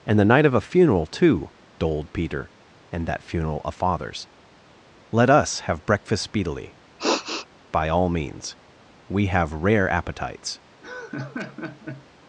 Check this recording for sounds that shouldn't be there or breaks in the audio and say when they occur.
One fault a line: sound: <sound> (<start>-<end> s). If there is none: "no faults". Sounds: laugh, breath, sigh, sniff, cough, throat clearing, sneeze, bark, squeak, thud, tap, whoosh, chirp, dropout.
sound: sniff (7.0-7.5 s)
sound: laugh (10.8-12.1 s)